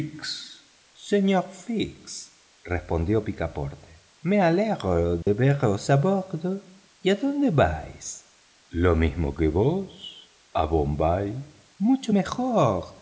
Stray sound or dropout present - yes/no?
yes